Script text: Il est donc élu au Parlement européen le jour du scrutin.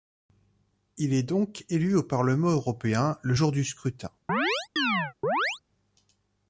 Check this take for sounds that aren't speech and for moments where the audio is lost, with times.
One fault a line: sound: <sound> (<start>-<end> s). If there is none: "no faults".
sound: chirp (4.3-5.6 s)